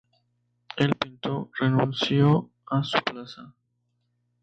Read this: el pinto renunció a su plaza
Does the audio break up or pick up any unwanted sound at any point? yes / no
no